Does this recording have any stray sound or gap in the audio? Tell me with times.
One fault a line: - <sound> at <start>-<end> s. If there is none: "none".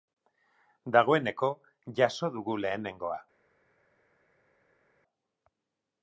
none